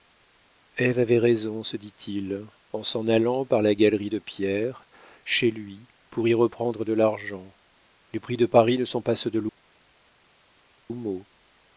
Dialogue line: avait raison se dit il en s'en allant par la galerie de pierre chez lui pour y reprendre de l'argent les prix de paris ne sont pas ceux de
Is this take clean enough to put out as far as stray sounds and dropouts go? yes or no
yes